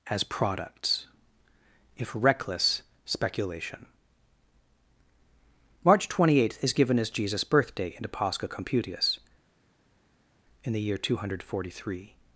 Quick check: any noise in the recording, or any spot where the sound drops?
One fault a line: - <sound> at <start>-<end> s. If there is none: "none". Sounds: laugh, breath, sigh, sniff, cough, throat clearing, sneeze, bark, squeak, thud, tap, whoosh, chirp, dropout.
none